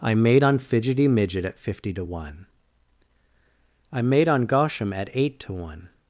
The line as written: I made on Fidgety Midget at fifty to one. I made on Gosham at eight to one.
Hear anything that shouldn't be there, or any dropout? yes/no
no